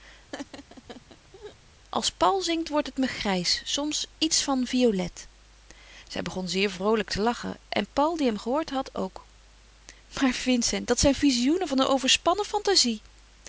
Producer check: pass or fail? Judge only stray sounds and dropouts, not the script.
fail